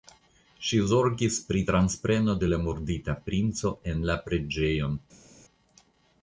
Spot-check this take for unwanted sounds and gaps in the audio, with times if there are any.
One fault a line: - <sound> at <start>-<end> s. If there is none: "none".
none